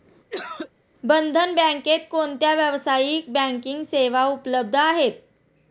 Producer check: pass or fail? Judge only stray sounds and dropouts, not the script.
fail